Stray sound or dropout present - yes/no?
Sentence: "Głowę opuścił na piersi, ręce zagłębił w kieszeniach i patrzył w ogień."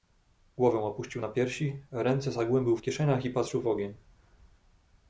no